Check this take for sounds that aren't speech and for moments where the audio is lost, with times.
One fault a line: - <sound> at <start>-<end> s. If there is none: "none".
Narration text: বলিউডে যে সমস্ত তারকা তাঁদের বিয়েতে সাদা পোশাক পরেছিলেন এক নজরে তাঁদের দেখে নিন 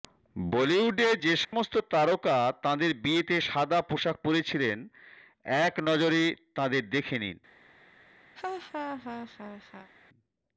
- dropout at 1.4-1.5 s
- laugh at 8.4-9.9 s